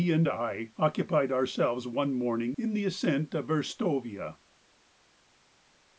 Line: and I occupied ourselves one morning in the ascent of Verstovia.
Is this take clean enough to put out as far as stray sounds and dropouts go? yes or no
yes